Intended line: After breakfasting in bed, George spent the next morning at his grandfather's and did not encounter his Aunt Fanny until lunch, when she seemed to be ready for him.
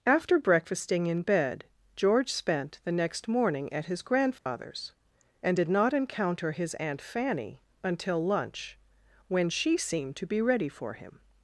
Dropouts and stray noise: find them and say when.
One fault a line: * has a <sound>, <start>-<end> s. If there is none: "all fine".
* has a dropout, 4.4-4.5 s